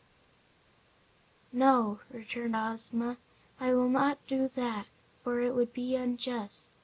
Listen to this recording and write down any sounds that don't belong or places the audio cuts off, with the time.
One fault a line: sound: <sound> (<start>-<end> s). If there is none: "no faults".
no faults